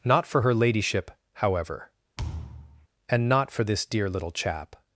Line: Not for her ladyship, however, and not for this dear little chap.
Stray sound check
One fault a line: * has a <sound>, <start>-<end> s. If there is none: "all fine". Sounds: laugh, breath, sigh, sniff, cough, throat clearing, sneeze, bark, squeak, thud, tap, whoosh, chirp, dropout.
* has a thud, 2.2-2.9 s